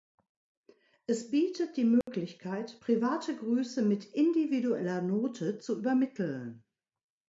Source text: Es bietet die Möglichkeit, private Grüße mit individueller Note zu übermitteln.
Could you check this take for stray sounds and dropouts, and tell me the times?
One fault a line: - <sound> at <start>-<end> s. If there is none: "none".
- dropout at 2.0-2.1 s